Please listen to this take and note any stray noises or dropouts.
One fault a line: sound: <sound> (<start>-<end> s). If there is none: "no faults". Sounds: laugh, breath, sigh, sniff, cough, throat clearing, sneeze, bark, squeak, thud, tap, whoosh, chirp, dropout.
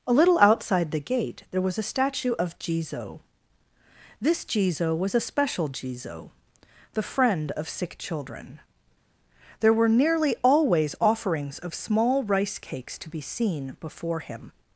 no faults